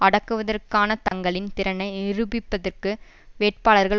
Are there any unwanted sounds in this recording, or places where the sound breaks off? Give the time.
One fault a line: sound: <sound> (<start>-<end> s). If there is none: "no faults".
sound: dropout (1.1-1.1 s)